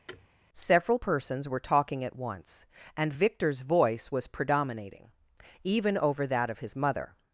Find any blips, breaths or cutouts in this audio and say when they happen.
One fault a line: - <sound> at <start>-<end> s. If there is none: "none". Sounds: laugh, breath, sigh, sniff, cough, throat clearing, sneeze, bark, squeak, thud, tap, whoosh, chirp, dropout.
- thud at 0.1-0.3 s